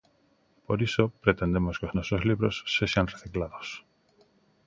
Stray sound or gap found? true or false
false